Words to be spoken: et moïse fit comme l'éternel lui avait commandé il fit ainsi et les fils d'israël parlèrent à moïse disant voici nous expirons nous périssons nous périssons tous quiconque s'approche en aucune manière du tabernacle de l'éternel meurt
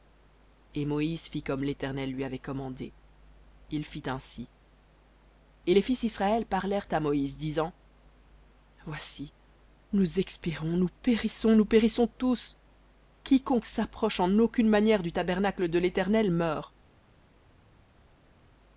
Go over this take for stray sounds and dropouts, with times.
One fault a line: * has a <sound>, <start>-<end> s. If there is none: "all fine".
all fine